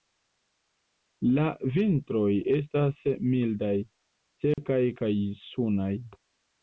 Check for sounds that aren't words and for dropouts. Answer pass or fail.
fail